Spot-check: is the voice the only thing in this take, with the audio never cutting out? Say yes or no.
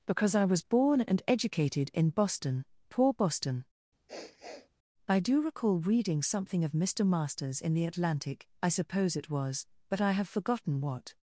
no